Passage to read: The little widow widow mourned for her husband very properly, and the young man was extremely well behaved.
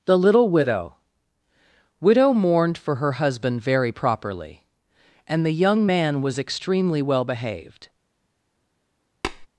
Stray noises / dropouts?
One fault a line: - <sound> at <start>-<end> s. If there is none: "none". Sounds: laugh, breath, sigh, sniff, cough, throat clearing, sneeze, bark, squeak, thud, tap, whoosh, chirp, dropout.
- tap at 9.2-9.5 s